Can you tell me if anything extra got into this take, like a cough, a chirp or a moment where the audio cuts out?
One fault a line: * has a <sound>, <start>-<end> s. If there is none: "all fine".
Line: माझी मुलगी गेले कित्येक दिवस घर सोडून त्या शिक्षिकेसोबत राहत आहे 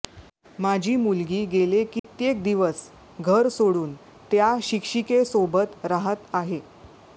* has a dropout, 2.0-2.0 s